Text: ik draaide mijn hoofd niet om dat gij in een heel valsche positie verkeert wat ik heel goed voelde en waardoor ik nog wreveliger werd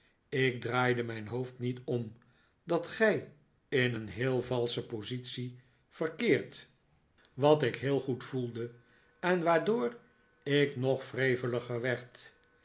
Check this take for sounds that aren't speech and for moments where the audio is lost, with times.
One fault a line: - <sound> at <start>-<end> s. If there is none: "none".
none